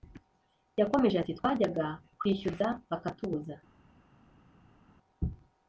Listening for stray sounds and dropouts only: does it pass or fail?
pass